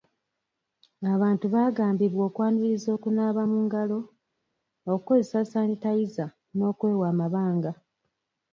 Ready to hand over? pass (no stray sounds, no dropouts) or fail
pass